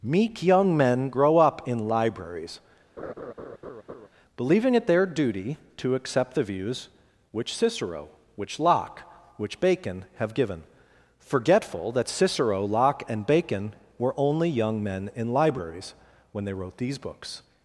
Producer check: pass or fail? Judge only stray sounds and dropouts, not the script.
fail